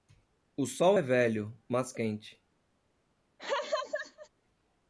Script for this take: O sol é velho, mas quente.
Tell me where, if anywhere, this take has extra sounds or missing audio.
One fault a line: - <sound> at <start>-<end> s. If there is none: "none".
- laugh at 3.4-4.3 s